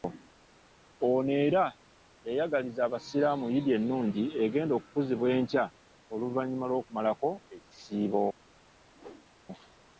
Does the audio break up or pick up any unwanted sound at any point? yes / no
yes